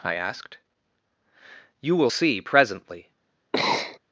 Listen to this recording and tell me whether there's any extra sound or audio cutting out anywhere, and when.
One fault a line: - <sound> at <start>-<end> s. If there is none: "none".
- sneeze at 3.5-4.0 s